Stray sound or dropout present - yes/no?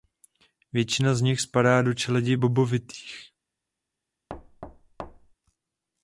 yes